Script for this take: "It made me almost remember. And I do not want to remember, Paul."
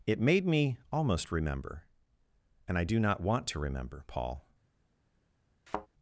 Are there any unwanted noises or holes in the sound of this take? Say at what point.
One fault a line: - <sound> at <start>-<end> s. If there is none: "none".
- thud at 5.7-5.9 s